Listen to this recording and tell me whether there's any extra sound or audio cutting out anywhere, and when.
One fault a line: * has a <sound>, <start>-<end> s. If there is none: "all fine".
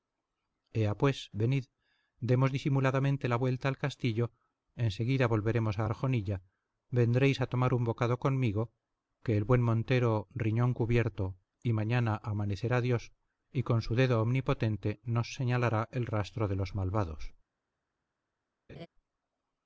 * has a laugh, 18.7-18.9 s